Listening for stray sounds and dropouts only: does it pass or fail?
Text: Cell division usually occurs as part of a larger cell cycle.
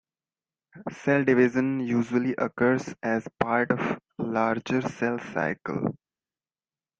pass